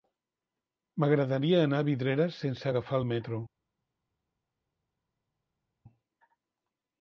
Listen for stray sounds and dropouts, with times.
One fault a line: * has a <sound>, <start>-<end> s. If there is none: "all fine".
all fine